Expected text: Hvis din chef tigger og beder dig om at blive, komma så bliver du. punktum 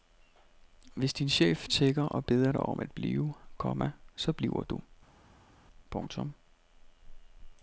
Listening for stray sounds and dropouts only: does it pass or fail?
pass